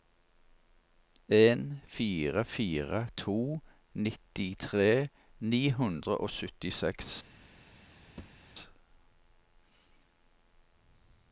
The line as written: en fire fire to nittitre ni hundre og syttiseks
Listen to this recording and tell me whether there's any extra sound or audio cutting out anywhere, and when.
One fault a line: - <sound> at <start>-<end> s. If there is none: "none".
- thud at 8.2-8.5 s